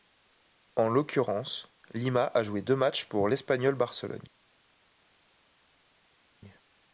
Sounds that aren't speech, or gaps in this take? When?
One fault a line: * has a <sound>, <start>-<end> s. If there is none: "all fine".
all fine